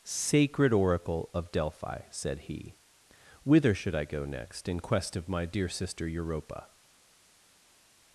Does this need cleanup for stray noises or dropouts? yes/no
no